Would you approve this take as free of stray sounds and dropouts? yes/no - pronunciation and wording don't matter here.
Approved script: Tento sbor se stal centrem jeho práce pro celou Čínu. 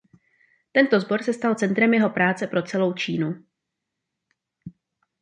yes